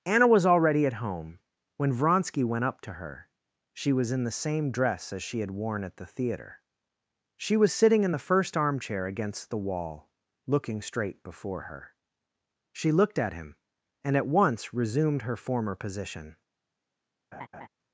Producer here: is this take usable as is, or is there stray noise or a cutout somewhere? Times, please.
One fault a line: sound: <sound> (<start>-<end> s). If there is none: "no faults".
sound: laugh (17.3-17.7 s)